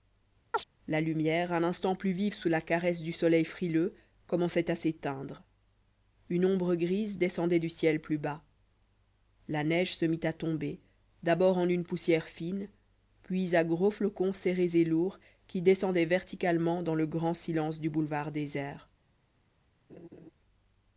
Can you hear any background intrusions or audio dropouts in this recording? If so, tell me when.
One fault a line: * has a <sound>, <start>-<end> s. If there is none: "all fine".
* has a chirp, 0.5-0.6 s
* has a laugh, 19.9-20.3 s